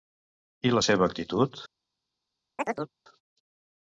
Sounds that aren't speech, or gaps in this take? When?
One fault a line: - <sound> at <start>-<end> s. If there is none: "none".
- chirp at 2.6-2.9 s